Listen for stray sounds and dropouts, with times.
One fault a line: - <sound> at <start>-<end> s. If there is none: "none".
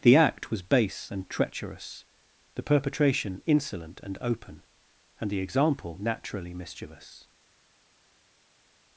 none